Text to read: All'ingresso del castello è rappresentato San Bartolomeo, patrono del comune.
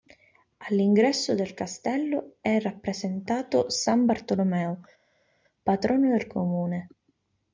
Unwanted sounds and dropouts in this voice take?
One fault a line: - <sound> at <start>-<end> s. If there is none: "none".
none